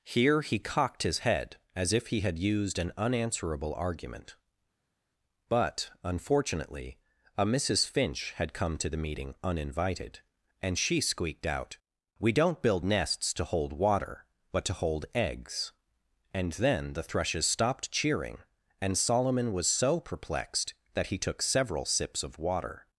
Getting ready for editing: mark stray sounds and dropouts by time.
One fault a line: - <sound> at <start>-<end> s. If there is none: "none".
none